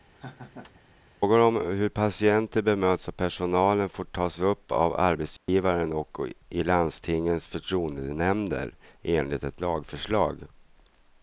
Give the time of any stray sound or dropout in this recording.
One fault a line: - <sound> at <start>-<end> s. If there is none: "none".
- laugh at 0.1-0.8 s
- dropout at 5.4-5.5 s